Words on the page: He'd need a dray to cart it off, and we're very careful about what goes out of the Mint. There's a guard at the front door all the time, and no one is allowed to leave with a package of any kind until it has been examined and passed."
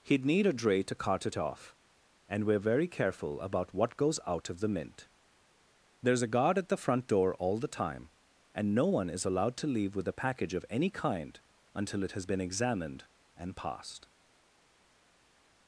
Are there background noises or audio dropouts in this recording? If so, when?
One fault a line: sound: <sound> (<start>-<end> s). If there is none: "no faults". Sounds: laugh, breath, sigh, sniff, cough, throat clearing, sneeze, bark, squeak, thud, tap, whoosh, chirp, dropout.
no faults